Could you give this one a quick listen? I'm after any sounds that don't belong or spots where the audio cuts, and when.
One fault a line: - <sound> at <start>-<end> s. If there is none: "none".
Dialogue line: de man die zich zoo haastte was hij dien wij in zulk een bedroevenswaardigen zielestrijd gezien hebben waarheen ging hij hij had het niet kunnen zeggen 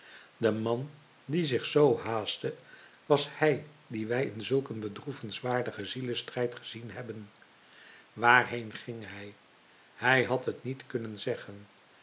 none